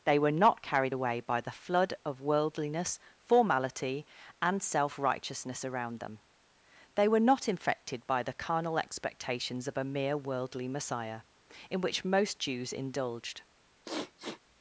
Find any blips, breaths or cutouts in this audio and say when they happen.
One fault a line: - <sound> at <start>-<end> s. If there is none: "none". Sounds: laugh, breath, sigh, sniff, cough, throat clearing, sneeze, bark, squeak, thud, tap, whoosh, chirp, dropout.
- sniff at 13.8-14.4 s